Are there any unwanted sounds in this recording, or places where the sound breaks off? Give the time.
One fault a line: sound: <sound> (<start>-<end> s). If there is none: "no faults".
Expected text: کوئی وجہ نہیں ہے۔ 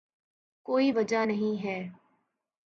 no faults